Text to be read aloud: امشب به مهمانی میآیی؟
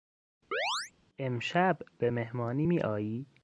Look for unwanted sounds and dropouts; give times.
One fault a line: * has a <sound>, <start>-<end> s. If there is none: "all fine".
* has a chirp, 0.5-0.9 s